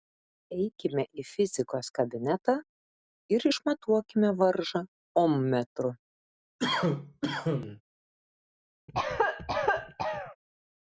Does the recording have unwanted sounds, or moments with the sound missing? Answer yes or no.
yes